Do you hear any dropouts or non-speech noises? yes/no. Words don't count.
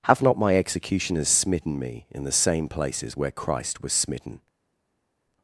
no